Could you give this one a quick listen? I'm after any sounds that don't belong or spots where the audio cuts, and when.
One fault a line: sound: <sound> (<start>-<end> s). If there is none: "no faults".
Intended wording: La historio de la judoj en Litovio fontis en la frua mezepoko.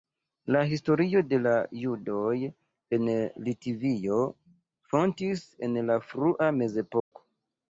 sound: dropout (7.0-7.1 s)